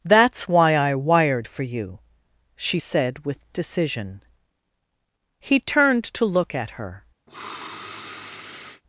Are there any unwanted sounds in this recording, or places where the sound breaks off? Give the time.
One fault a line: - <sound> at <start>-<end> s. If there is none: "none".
- sniff at 7.3-8.8 s